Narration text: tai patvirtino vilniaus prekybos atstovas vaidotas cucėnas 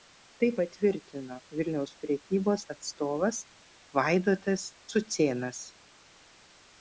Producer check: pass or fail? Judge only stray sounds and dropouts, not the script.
pass